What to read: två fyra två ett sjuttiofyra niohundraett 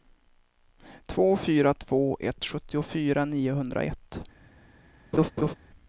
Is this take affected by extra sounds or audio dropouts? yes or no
yes